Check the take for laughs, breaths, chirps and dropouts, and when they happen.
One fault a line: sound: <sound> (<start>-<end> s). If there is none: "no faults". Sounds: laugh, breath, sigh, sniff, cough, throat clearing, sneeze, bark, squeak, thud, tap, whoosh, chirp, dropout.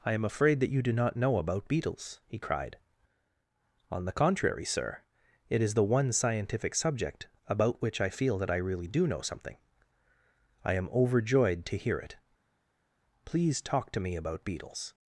no faults